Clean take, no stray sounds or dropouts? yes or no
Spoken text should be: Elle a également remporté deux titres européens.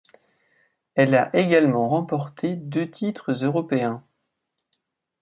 yes